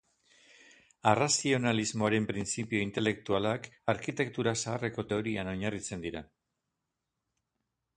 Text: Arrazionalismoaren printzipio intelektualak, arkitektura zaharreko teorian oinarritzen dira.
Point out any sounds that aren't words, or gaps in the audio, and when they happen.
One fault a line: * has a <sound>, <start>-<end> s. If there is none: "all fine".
all fine